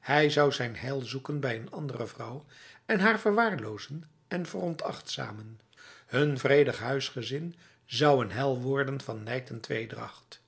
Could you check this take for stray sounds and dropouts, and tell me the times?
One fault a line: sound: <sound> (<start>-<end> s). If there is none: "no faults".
no faults